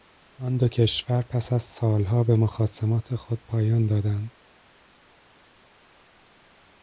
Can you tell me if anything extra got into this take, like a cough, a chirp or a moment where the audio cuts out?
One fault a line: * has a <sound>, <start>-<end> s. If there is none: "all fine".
all fine